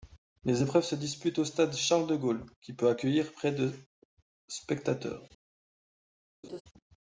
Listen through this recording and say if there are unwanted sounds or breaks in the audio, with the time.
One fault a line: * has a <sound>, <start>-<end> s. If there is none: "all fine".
* has a laugh, 6.4-6.6 s